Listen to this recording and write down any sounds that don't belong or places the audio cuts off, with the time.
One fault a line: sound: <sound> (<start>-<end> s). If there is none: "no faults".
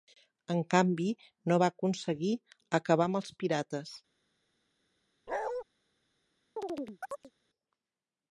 sound: bark (5.3-5.6 s)
sound: chirp (6.6-7.3 s)